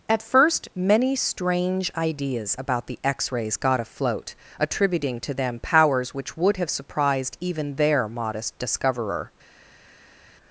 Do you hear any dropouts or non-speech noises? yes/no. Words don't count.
no